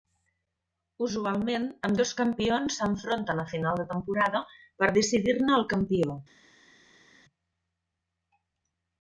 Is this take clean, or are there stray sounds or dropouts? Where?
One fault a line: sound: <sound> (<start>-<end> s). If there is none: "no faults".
no faults